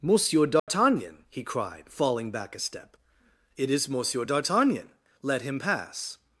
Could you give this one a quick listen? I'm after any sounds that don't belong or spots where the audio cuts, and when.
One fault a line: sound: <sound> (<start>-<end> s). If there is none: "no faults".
sound: dropout (0.6-0.7 s)